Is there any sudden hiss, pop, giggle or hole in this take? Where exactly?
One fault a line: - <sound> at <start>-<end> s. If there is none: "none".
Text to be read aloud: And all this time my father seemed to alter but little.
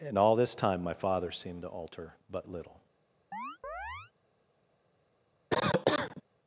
- chirp at 3.3-4.1 s
- cough at 5.5-6.2 s